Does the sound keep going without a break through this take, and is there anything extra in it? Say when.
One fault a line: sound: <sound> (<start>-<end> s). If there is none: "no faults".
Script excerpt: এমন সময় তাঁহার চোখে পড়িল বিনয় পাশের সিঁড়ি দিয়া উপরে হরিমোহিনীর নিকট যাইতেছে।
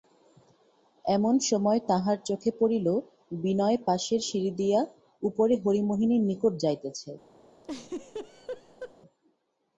sound: laugh (7.6-8.9 s)